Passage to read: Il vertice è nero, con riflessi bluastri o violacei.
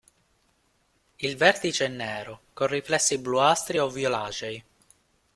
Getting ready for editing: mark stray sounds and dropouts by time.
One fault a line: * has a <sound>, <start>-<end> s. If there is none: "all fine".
all fine